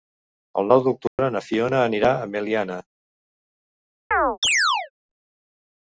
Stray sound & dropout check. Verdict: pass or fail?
fail